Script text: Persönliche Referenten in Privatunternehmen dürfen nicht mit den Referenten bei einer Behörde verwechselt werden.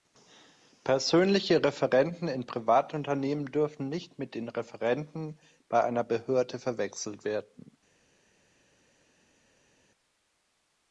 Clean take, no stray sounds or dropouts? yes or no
yes